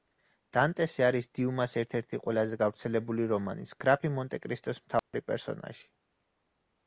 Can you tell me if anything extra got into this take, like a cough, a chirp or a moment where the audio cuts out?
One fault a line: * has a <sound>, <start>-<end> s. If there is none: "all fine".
* has a dropout, 5.0-5.1 s